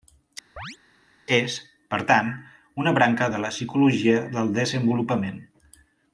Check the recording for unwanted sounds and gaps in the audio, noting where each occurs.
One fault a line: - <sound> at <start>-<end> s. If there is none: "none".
- chirp at 0.6-0.8 s